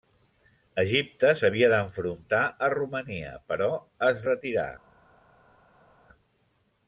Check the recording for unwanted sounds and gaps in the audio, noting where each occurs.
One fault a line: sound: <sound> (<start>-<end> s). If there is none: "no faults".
no faults